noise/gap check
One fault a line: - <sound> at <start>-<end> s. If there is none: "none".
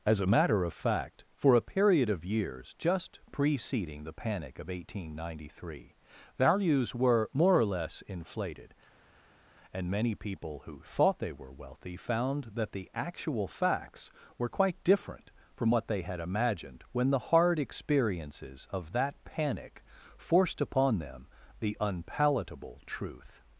none